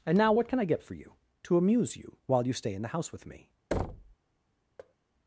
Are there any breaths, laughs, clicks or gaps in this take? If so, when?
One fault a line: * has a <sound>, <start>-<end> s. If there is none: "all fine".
* has a thud, 3.7-4.2 s
* has a thud, 4.8-5.0 s